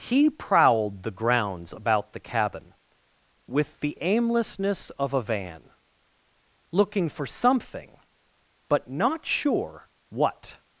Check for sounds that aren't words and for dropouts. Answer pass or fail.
pass